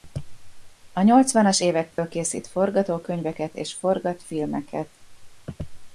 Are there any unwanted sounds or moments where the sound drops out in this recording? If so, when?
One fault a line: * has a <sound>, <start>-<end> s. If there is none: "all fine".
* has a dropout, 1.9-2.0 s